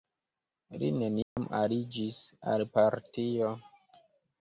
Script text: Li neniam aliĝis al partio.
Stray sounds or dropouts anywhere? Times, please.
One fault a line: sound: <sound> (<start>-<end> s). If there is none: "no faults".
sound: dropout (1.2-1.4 s)